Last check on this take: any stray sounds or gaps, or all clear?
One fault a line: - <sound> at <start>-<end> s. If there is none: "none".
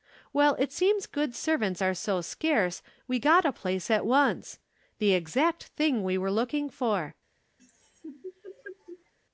- laugh at 7.6-9.1 s